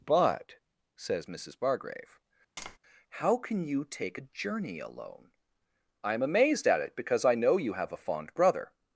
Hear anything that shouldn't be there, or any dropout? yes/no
yes